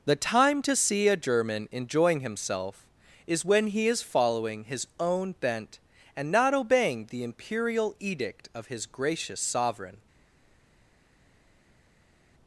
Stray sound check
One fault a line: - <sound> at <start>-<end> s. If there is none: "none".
none